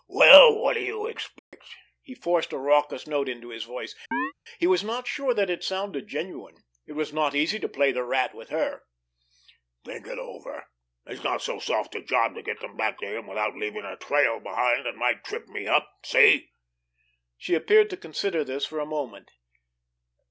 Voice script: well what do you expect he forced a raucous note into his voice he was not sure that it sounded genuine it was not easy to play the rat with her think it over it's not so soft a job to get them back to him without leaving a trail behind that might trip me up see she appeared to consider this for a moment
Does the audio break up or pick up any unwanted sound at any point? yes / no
yes